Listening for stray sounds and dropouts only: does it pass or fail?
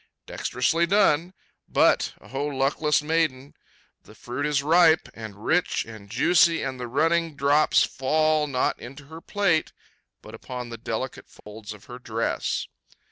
fail